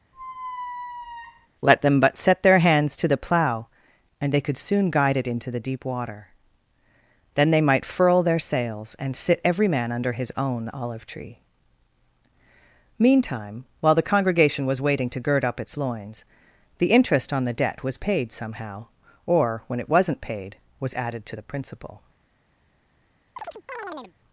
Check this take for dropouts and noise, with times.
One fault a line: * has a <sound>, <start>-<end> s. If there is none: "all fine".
* has a squeak, 0.1-1.5 s
* has a chirp, 23.4-24.1 s